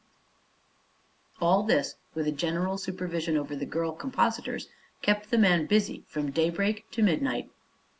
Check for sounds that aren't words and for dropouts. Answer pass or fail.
pass